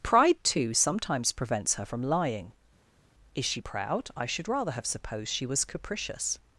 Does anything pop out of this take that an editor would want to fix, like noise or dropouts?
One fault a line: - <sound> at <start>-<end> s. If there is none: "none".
none